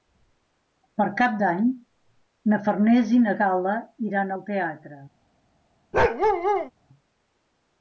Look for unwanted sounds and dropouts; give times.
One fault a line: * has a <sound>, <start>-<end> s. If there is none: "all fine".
* has a bark, 5.9-6.7 s